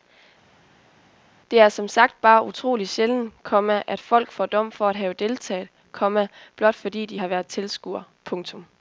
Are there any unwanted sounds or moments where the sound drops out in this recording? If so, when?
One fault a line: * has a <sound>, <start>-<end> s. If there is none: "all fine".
all fine